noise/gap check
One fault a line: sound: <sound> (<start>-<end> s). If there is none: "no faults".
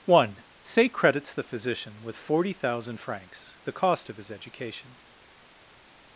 no faults